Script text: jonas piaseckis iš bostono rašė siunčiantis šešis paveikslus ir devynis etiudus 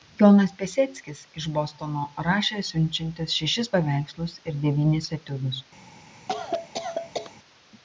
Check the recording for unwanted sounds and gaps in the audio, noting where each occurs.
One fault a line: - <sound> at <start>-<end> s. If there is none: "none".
- cough at 6.3-7.3 s